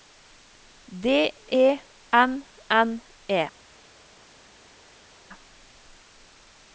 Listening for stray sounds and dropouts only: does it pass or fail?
pass